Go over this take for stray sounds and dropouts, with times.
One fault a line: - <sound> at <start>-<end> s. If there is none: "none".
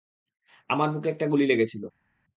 none